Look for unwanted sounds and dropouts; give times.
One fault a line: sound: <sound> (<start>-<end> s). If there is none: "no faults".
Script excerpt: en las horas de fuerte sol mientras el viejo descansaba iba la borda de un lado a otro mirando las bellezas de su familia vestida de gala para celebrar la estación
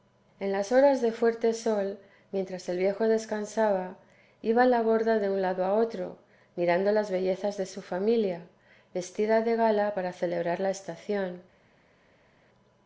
no faults